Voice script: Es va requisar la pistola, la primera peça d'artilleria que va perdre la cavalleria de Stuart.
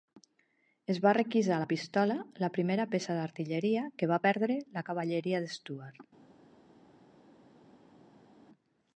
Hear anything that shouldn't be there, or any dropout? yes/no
no